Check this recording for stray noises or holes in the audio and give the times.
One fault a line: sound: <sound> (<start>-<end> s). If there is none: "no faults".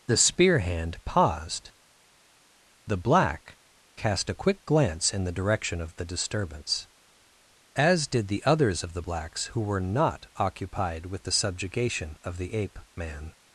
no faults